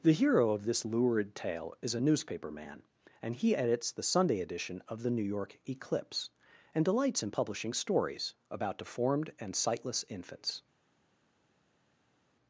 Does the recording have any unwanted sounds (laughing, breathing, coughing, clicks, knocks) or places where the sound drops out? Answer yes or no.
no